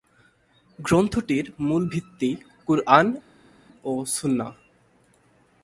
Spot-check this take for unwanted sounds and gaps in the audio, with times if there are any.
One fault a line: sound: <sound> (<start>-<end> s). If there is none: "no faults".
no faults